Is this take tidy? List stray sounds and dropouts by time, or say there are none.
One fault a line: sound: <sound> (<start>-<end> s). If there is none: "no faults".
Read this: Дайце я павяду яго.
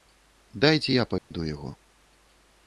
sound: dropout (1.2-1.3 s)